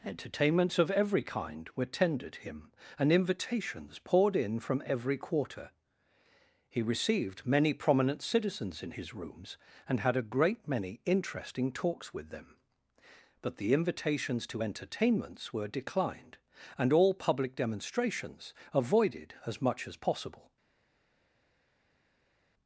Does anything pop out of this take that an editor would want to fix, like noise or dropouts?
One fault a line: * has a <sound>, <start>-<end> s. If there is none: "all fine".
all fine